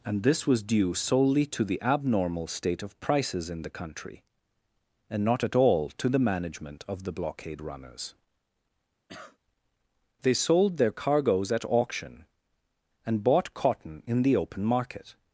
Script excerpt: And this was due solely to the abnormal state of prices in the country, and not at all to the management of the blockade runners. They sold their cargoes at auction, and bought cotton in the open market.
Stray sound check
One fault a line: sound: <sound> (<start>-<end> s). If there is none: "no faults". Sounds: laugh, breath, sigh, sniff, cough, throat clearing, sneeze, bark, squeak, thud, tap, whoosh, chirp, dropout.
sound: cough (9.1-9.4 s)